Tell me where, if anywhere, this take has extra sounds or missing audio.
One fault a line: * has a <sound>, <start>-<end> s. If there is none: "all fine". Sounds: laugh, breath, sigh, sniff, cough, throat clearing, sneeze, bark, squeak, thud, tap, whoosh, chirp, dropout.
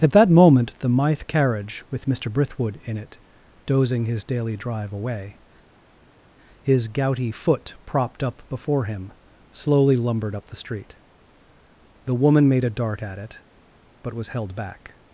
all fine